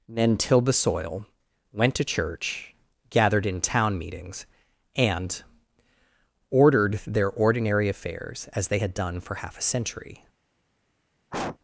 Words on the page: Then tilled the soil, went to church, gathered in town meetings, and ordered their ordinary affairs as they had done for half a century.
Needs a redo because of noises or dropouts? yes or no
yes